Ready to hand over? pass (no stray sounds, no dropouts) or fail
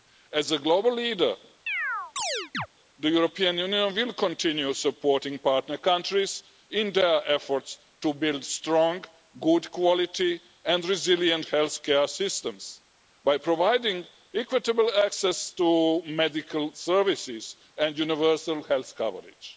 fail